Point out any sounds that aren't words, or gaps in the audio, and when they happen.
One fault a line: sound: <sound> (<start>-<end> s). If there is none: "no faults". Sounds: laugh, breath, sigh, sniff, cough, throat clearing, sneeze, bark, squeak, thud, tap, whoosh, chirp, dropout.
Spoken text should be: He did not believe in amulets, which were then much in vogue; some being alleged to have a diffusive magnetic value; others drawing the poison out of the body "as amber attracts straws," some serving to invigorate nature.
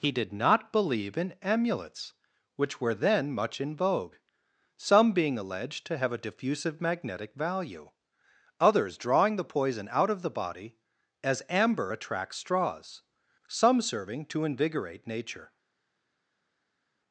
no faults